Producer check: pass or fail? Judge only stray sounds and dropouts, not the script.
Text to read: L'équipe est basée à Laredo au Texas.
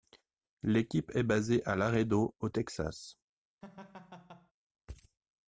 fail